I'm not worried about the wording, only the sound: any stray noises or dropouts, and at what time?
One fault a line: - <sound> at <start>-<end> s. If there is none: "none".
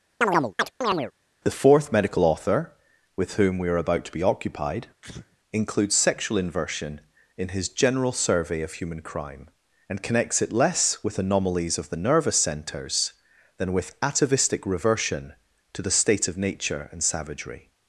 - chirp at 0.2-1.1 s
- sneeze at 5.0-5.4 s